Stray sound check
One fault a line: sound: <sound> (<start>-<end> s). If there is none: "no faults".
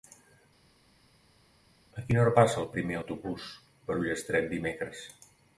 no faults